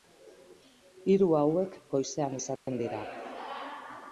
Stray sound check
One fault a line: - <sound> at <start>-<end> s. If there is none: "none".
- dropout at 2.6-2.7 s